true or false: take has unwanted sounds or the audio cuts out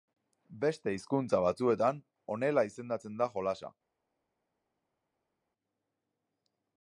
false